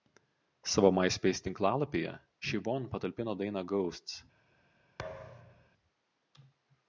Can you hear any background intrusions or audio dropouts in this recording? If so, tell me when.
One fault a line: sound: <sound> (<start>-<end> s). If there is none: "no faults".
sound: thud (5.0-5.7 s)